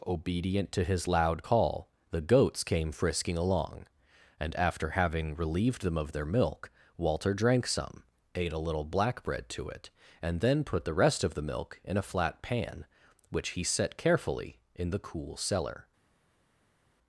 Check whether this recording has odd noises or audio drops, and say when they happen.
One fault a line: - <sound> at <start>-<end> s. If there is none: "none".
none